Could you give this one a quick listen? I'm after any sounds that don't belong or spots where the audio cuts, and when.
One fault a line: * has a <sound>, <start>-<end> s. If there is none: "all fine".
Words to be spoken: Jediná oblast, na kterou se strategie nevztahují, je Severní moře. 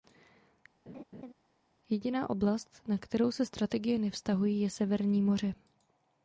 * has a laugh, 0.9-1.3 s